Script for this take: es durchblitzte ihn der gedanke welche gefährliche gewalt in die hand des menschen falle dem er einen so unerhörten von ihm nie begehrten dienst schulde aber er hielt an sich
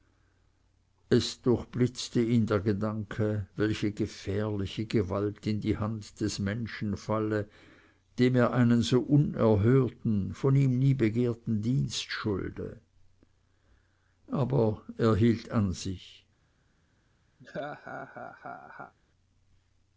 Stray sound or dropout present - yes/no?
yes